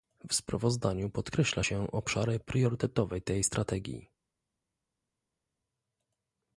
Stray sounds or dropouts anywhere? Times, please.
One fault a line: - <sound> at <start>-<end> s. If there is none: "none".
none